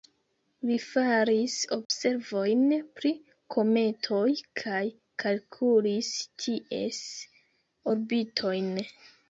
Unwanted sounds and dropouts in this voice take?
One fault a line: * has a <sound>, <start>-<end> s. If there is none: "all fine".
* has a dropout, 1.8-1.9 s